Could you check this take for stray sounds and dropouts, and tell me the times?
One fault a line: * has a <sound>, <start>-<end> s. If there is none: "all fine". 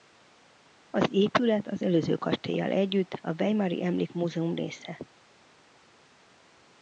all fine